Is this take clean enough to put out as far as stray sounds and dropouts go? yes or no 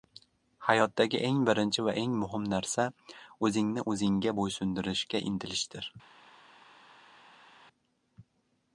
yes